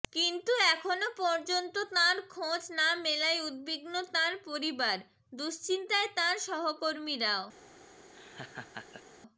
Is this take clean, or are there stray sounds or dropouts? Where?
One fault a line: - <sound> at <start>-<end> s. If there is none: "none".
- laugh at 8.1-9.0 s